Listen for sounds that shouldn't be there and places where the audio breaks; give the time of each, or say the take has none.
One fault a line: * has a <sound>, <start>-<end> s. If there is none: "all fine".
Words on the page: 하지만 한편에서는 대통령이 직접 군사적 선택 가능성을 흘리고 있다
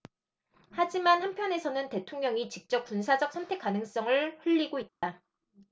* has a dropout, 4.9-5.0 s